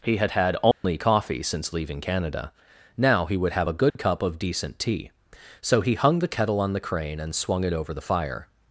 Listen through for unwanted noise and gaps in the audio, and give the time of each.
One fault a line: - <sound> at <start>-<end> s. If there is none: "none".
- dropout at 0.7-0.8 s
- dropout at 3.9-4.0 s